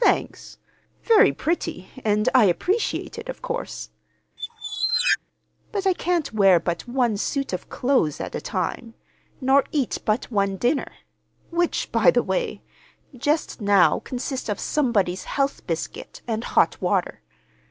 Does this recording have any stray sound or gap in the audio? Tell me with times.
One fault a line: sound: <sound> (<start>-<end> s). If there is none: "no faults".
sound: squeak (4.4-5.2 s)